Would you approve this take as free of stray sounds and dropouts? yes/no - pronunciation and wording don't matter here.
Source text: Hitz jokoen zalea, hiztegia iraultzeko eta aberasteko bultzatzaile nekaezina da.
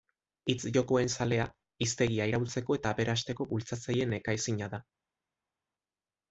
yes